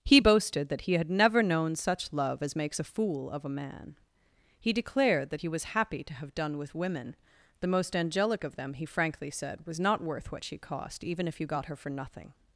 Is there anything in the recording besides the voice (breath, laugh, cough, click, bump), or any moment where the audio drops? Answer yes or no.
no